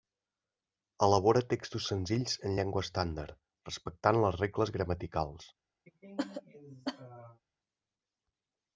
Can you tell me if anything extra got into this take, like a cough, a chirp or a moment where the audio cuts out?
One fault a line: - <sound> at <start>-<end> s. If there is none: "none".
- cough at 5.9-7.4 s